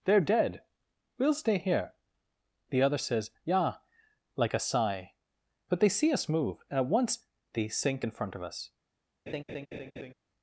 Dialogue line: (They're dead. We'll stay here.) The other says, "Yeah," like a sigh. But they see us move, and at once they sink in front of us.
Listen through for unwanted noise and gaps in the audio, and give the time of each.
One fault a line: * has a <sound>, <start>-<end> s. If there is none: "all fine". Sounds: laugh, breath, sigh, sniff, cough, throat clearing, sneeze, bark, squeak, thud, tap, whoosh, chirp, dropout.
* has a laugh, 9.3-10.1 s